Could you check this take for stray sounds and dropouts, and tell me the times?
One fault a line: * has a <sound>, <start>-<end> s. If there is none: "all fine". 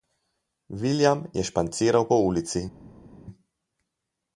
all fine